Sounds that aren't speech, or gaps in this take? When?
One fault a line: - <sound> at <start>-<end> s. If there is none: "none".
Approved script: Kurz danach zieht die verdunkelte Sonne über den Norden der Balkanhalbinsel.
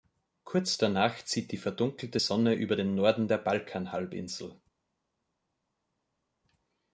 none